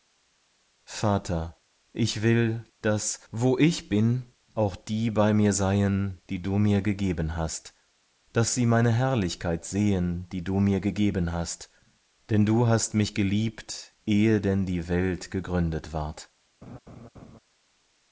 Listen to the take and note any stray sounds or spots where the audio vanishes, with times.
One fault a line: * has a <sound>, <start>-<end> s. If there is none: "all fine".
* has a laugh, 16.6-17.4 s